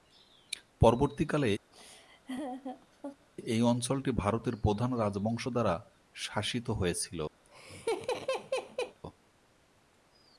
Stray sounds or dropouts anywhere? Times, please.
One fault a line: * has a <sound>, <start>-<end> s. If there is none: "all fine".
* has a laugh, 1.7-3.3 s
* has a laugh, 7.4-9.0 s